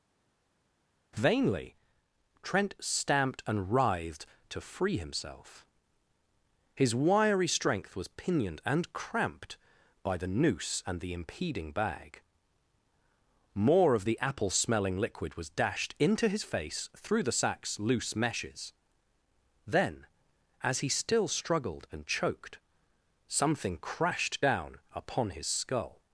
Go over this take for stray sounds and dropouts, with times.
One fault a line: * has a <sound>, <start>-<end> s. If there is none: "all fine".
all fine